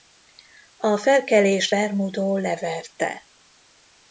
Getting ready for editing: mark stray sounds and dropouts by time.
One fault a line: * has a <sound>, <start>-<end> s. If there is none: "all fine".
all fine